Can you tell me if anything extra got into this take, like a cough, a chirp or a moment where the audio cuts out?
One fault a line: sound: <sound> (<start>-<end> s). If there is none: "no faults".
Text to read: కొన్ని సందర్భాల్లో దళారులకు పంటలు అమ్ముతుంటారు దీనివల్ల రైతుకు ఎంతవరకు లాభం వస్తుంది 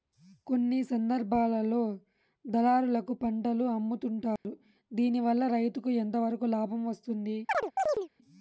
sound: dropout (4.4-4.4 s)
sound: chirp (7.5-8.1 s)